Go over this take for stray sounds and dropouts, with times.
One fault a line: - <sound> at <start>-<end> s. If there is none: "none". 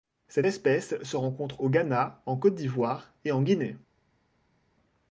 none